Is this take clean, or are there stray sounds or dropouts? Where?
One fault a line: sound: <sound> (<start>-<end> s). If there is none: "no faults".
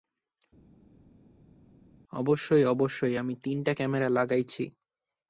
no faults